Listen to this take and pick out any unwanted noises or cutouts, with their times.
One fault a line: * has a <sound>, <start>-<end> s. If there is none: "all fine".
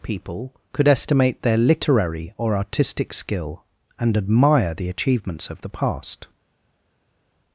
all fine